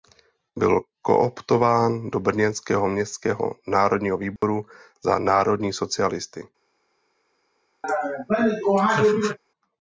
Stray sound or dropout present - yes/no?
yes